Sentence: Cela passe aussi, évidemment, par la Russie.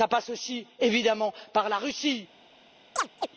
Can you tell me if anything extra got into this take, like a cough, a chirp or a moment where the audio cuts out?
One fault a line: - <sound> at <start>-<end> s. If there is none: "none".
- chirp at 3.0-3.3 s